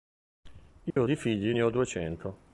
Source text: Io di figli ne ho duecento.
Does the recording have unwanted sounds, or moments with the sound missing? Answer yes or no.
yes